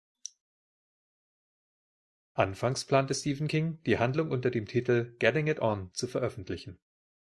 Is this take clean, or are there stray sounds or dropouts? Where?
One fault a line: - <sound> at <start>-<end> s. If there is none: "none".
none